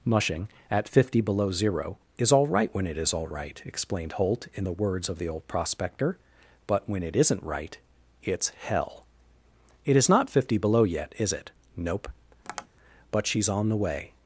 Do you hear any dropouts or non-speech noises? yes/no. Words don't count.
yes